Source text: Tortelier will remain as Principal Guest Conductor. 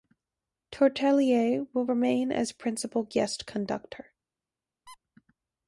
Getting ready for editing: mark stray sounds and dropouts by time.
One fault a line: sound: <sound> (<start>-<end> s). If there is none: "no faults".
sound: squeak (4.9-5.0 s)